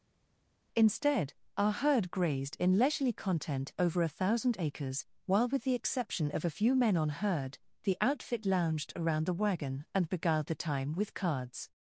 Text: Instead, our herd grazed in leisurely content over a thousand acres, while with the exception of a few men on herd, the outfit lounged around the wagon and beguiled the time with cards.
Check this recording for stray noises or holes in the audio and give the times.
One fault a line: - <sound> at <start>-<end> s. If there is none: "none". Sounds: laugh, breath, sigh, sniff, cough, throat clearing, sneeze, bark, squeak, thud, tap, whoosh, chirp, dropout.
none